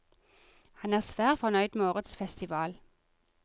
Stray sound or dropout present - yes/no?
no